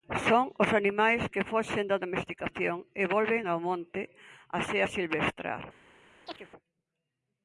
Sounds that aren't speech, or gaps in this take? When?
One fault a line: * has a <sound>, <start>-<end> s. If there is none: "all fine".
* has a chirp, 6.3-6.5 s